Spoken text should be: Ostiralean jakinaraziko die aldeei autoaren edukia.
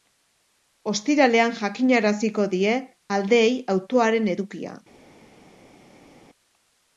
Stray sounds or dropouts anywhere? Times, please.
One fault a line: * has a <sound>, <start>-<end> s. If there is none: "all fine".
all fine